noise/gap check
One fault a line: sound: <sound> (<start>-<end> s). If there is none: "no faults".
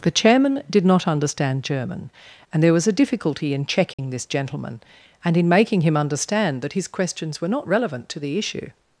sound: dropout (3.9-4.0 s)